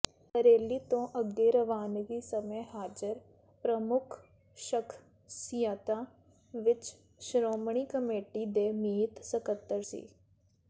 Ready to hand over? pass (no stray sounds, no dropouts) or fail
pass